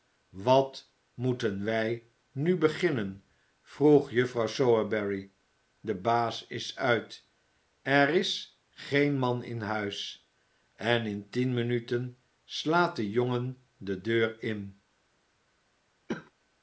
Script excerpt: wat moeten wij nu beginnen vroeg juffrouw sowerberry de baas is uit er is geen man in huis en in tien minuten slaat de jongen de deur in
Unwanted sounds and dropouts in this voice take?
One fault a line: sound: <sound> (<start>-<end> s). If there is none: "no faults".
sound: cough (16.1-16.3 s)